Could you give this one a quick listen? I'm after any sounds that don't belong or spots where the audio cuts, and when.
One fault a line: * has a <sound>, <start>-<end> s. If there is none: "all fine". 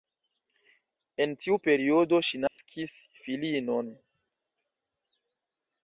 * has a dropout, 2.5-2.6 s